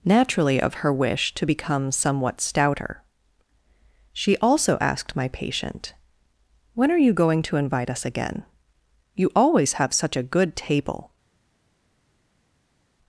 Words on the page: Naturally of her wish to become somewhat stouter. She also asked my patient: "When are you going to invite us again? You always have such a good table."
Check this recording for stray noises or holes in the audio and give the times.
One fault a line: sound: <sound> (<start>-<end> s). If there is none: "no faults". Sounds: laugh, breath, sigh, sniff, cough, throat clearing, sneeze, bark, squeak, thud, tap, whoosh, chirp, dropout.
no faults